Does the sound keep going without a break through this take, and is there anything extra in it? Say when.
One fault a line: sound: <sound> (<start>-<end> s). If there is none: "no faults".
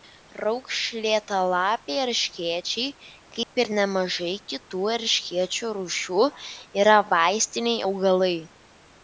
sound: dropout (3.4-3.5 s)